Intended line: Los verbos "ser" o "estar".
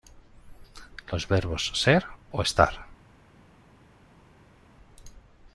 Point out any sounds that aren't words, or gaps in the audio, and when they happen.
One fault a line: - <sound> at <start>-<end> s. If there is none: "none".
none